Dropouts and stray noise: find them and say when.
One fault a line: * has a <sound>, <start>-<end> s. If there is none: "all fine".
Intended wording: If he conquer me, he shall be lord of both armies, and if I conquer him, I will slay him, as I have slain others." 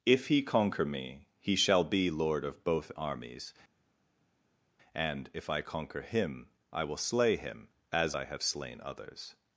all fine